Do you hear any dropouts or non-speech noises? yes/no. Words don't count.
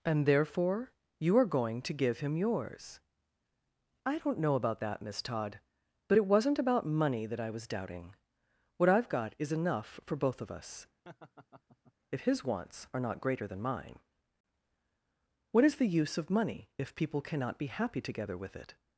yes